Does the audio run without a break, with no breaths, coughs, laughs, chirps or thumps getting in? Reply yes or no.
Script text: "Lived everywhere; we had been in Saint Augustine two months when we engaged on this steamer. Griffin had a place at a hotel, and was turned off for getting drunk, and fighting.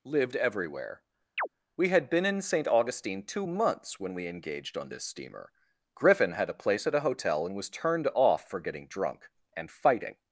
no